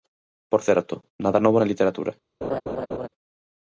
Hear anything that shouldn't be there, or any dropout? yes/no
yes